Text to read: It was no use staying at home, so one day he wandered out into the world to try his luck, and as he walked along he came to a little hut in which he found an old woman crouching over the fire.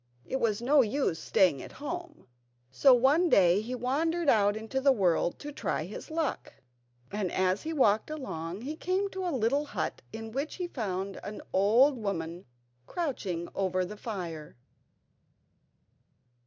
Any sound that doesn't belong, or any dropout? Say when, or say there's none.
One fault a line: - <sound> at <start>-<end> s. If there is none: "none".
none